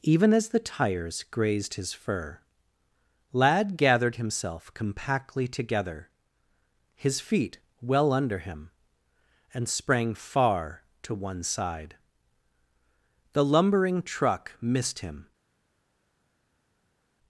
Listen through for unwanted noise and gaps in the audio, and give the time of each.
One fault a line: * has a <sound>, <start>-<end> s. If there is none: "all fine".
all fine